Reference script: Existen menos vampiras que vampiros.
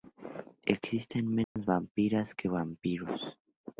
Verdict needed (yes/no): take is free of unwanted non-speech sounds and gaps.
no